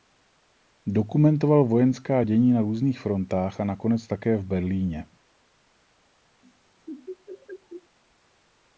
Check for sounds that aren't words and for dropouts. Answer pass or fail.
fail